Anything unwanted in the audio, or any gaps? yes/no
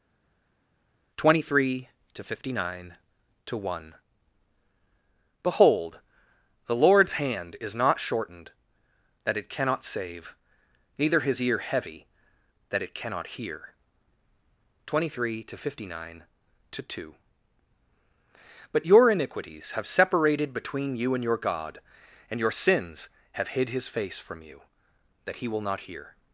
no